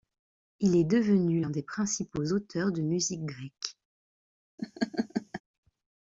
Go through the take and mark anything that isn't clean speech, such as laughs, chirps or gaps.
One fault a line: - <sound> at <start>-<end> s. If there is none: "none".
- laugh at 4.6-5.4 s